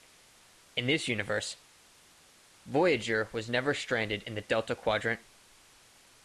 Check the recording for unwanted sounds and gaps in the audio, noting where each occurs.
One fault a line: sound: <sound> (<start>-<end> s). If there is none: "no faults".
no faults